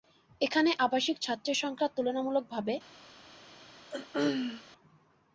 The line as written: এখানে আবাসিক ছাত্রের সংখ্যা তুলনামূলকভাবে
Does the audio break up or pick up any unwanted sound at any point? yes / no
yes